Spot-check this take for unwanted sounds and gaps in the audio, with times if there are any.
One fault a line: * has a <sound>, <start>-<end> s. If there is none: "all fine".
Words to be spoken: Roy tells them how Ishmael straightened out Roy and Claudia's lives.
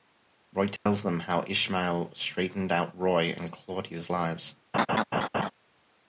* has a dropout, 0.8-0.9 s
* has a laugh, 4.7-5.5 s